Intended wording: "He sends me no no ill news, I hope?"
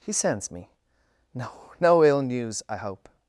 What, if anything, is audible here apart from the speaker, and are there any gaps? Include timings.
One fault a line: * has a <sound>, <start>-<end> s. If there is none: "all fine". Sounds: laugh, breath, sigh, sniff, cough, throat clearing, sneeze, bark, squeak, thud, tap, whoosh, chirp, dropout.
all fine